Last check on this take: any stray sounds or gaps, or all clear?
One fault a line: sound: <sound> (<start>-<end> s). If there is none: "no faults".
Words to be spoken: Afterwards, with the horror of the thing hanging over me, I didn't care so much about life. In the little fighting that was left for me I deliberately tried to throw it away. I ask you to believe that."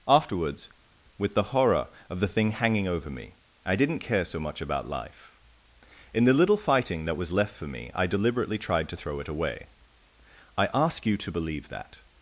no faults